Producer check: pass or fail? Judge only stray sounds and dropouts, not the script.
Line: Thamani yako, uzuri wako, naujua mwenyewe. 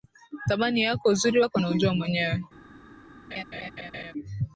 fail